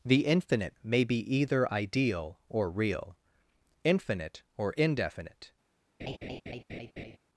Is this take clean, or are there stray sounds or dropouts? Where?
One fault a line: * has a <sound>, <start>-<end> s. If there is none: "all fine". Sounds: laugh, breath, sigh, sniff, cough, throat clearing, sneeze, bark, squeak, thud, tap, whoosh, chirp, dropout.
* has a laugh, 6.0-7.2 s